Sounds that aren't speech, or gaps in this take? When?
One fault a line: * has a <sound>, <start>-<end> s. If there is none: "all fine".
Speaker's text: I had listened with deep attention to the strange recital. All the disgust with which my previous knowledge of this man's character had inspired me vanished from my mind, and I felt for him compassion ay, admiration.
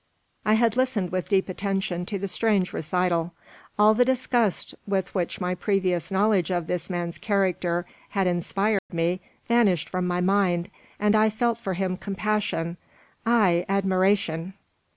* has a dropout, 8.8-8.9 s